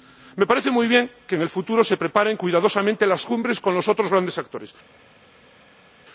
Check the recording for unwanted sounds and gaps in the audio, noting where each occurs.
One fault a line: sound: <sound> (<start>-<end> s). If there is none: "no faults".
no faults